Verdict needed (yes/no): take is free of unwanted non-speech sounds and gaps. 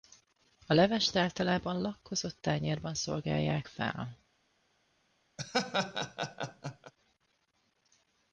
no